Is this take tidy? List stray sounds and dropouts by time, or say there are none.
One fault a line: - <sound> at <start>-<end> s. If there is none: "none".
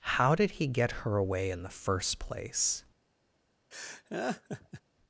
- laugh at 3.7-4.8 s